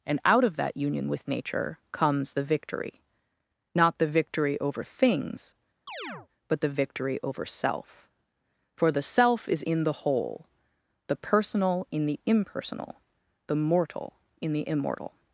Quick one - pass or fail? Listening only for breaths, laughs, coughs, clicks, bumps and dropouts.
fail